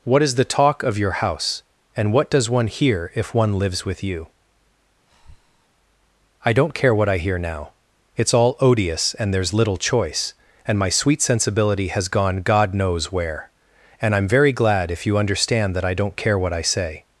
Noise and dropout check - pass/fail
fail